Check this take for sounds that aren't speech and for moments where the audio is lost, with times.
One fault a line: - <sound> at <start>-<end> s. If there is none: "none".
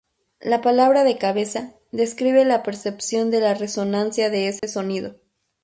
- dropout at 4.6-4.6 s